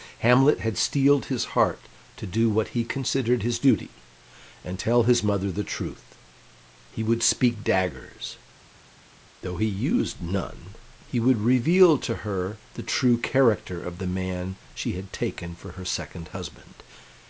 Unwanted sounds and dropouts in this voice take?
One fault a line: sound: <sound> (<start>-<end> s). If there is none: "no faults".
no faults